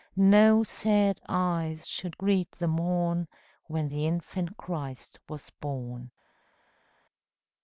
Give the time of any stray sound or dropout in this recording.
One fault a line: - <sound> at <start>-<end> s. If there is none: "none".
none